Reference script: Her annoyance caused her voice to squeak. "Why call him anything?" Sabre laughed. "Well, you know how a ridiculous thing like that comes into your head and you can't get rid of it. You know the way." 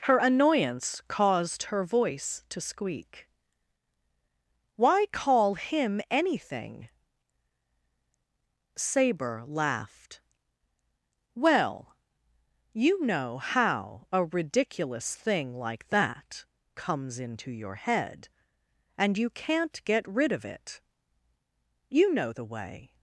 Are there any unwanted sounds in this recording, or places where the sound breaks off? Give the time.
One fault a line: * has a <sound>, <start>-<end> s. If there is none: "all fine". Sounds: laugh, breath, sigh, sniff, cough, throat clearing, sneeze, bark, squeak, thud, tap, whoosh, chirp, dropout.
all fine